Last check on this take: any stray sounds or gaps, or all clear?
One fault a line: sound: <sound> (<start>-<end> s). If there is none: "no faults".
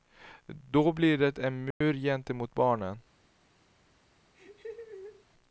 sound: dropout (1.7-1.8 s)
sound: laugh (4.3-5.2 s)